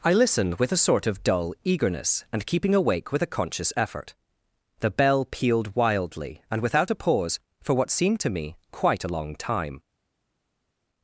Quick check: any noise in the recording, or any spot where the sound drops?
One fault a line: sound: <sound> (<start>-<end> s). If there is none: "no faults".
no faults